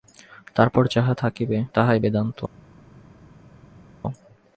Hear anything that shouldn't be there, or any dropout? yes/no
no